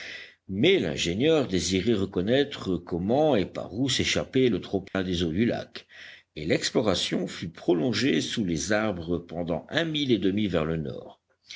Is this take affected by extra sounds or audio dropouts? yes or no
yes